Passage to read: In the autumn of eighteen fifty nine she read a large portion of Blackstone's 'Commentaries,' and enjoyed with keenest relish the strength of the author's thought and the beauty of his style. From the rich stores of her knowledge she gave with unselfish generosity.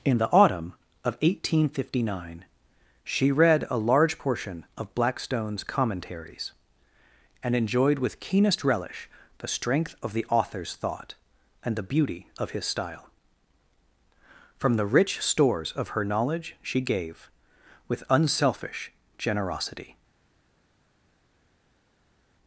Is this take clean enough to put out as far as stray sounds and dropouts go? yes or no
yes